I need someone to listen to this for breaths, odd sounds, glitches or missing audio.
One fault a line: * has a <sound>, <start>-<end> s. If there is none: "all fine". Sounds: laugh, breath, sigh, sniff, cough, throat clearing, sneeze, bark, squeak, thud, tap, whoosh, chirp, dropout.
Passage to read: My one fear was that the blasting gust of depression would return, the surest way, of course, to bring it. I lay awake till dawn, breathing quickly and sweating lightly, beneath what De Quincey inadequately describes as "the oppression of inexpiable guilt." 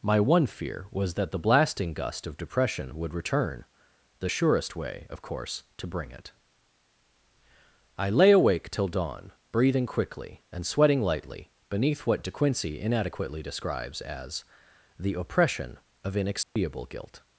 * has a dropout, 16.4-16.6 s